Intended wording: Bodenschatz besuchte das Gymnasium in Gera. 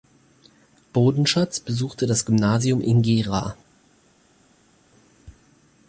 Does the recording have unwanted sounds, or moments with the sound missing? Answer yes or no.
no